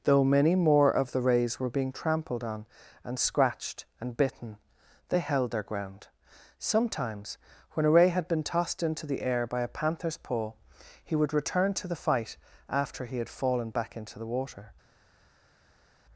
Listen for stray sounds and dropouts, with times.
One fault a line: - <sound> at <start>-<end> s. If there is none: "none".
none